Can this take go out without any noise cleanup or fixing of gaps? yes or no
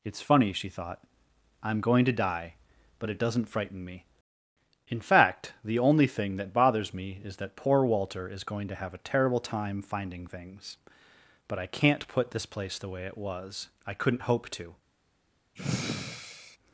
no